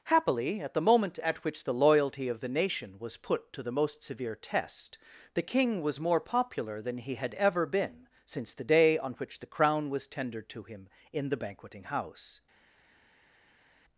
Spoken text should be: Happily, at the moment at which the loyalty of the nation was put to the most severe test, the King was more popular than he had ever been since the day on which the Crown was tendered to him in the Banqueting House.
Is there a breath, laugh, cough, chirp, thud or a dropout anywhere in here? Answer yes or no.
no